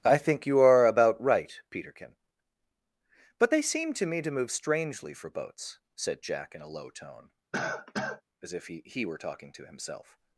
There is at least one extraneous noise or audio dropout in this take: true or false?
true